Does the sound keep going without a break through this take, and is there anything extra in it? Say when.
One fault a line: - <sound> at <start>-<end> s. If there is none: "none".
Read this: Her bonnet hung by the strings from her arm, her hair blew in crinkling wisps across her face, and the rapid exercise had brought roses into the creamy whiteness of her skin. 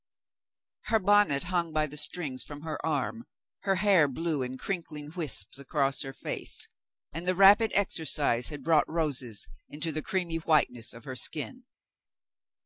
none